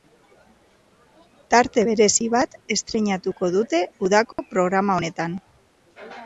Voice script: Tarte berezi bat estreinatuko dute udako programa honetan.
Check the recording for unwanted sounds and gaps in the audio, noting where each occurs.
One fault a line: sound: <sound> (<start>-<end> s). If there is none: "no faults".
sound: dropout (4.3-4.4 s)